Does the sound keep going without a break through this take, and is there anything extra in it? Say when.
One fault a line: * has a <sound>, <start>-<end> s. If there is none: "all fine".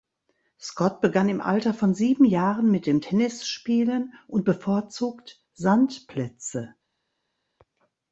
all fine